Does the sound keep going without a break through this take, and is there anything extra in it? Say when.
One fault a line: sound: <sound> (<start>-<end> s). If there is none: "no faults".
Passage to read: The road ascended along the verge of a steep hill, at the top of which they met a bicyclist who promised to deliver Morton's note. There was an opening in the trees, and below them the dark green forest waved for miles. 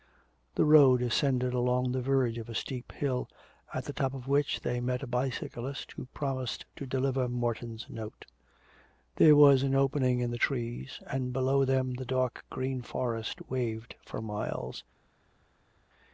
no faults